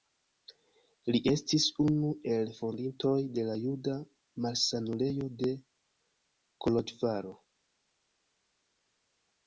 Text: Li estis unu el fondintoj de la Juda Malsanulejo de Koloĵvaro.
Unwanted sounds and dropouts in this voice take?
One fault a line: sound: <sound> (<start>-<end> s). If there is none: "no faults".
no faults